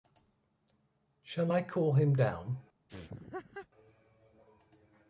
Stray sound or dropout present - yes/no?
yes